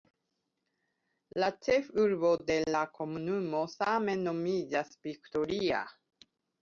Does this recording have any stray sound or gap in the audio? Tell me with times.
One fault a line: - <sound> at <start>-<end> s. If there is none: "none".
none